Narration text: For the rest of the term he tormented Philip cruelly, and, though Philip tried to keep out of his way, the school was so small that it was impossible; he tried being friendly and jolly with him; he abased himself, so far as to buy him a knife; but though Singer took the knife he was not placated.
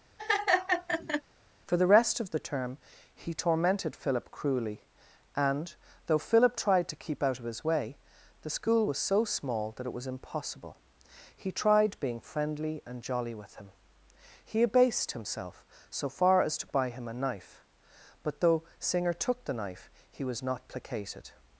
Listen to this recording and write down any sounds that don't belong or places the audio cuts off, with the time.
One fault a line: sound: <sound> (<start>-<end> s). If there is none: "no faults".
sound: laugh (0.2-1.2 s)